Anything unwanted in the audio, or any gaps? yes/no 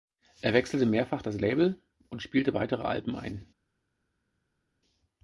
no